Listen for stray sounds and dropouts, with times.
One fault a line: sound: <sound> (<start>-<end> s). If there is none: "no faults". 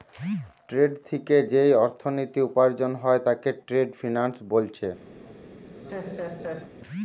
sound: laugh (5.2-6.7 s)